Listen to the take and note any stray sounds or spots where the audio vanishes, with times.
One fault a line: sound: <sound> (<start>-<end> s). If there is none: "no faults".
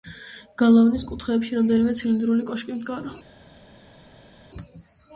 no faults